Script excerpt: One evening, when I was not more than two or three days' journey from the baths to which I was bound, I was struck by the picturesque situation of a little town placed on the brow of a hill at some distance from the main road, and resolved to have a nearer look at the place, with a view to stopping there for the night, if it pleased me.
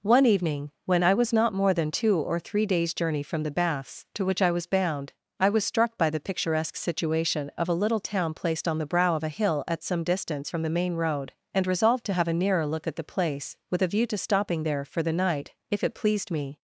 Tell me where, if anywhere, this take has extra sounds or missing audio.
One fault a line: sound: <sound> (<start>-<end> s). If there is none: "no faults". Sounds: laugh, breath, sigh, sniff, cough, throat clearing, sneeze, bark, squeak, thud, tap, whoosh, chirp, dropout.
no faults